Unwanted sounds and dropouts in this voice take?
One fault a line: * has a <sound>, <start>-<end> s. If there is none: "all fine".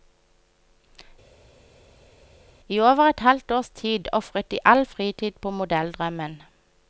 all fine